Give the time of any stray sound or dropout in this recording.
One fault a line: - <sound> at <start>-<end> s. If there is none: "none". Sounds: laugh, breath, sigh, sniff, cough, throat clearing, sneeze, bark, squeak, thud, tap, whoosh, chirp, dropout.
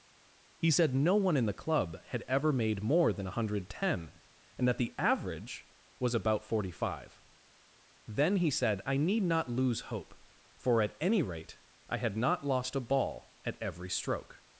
none